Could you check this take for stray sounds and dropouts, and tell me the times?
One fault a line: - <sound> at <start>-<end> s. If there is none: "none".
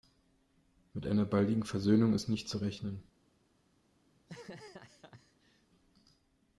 - laugh at 4.1-5.7 s